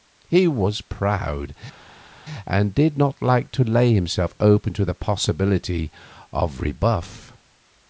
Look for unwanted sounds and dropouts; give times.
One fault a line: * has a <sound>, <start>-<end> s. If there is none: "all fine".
all fine